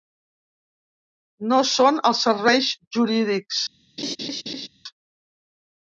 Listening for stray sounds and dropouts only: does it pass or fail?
fail